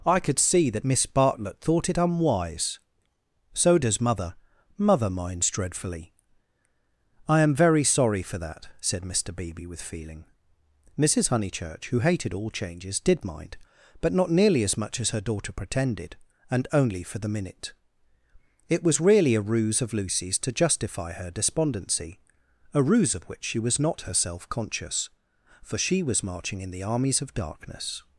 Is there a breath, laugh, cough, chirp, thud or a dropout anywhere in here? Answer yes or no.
no